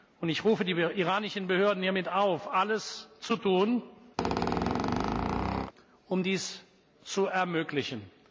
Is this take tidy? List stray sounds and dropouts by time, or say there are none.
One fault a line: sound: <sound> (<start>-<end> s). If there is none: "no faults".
sound: squeak (4.2-5.7 s)